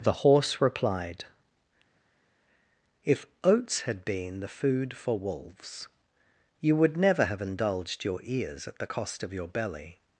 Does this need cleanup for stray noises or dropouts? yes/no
no